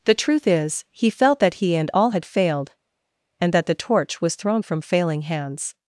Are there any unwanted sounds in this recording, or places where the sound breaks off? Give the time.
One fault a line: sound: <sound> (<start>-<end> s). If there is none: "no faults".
no faults